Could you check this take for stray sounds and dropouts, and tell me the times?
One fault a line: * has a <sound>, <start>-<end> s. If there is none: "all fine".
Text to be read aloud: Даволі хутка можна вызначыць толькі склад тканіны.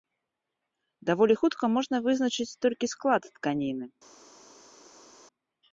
all fine